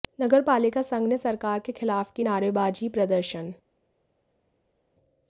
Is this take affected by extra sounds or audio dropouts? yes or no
no